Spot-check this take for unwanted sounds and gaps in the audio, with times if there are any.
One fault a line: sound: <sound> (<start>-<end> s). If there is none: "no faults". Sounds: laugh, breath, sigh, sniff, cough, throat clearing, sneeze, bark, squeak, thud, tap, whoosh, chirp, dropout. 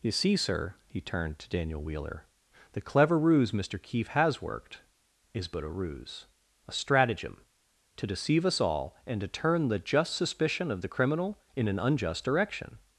no faults